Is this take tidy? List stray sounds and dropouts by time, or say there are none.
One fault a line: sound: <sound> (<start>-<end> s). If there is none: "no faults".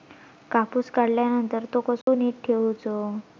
sound: dropout (2.0-2.1 s)